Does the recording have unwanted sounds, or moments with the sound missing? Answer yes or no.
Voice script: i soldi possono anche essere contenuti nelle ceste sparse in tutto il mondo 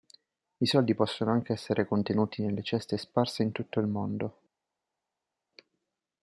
no